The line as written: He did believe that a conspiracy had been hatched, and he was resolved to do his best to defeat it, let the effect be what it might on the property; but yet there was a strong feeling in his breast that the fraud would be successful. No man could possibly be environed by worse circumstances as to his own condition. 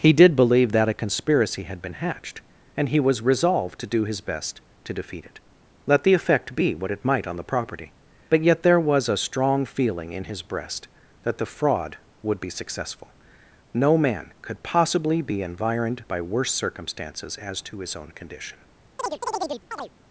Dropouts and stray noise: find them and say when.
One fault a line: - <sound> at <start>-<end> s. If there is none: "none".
- chirp at 19.0-19.9 s